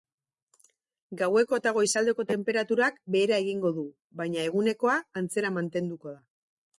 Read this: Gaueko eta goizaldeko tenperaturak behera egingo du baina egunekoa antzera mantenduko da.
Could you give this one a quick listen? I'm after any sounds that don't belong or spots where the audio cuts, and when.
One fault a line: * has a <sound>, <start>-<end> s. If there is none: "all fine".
all fine